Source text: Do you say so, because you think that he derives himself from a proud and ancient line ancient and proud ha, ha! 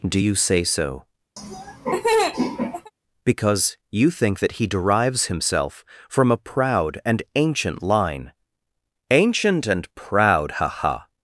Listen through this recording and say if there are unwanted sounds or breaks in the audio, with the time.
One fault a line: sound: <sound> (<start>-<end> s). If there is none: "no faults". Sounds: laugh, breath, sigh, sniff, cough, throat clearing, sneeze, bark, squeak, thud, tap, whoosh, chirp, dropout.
sound: laugh (1.4-2.9 s)